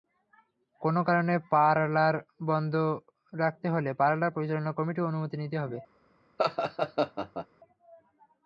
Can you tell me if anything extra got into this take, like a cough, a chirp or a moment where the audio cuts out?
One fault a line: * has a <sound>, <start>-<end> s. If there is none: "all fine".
* has a laugh, 6.4-7.5 s